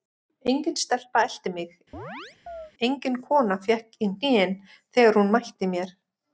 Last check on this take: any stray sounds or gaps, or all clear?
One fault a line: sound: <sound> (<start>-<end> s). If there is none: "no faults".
sound: chirp (1.9-2.7 s)